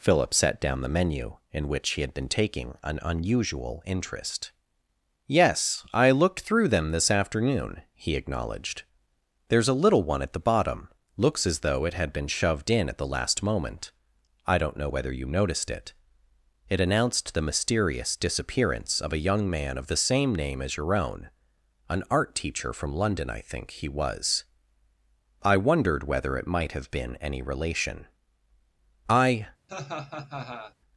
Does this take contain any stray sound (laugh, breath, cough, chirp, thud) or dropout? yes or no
yes